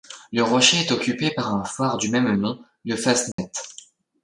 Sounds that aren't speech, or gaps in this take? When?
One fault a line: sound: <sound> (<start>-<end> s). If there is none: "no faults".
sound: dropout (3.3-3.4 s)